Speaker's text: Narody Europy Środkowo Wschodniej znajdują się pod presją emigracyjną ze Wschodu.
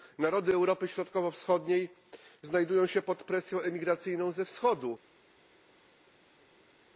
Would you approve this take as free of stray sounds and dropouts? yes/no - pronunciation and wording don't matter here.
yes